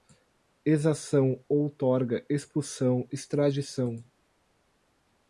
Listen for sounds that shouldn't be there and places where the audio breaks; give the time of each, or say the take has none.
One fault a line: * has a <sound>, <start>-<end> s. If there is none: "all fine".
all fine